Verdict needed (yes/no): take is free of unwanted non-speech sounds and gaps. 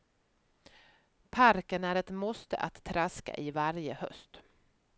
yes